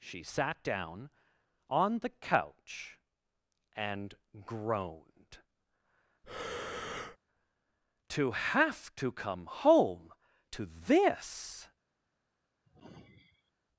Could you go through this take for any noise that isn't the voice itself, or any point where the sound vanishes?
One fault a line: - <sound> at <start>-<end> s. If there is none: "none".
- breath at 6.2-7.2 s
- sigh at 12.6-13.5 s